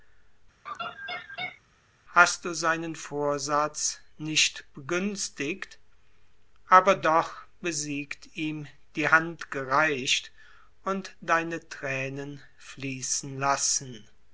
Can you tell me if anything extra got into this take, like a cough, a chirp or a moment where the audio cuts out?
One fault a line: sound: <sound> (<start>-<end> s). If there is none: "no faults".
sound: laugh (0.7-1.6 s)